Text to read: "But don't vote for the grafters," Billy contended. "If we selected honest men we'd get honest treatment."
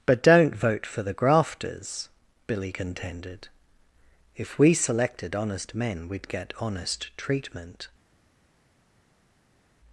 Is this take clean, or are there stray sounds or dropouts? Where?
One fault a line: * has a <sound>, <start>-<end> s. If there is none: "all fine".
all fine